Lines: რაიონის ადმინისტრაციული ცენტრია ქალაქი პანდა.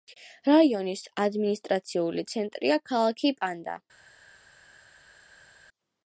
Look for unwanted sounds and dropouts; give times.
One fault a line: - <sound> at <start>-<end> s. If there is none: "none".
none